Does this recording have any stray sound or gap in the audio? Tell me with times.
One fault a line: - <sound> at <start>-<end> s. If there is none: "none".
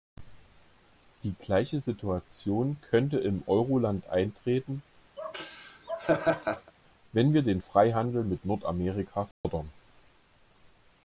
- laugh at 5.2-6.7 s
- dropout at 9.3-9.4 s